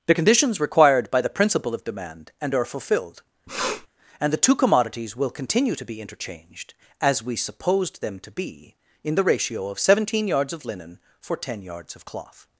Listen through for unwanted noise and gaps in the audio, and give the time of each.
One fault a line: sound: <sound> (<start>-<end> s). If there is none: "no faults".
sound: sniff (3.5-3.9 s)